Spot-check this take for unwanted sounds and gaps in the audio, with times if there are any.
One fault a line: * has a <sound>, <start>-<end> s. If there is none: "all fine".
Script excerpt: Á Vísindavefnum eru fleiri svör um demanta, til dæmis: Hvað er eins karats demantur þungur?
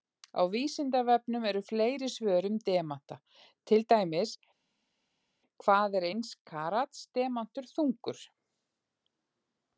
all fine